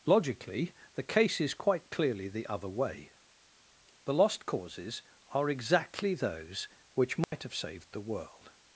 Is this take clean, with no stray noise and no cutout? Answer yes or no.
no